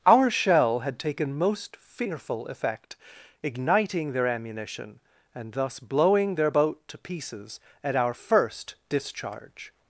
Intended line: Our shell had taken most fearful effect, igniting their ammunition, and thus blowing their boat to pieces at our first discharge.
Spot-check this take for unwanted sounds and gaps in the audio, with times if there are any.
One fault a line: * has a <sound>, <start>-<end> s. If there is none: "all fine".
all fine